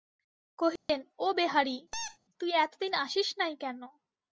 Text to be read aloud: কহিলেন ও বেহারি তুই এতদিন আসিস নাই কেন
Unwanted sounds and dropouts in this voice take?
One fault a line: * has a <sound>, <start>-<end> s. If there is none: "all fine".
* has a dropout, 0.8-0.9 s
* has a squeak, 1.9-2.2 s